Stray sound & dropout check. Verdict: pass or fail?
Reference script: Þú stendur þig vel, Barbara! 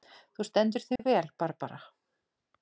fail